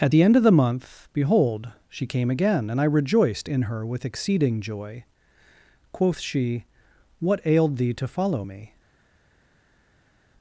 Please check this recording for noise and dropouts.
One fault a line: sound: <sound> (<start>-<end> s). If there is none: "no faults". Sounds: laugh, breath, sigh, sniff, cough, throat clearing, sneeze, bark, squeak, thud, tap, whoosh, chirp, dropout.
no faults